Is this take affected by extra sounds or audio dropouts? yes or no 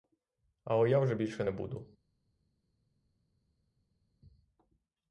no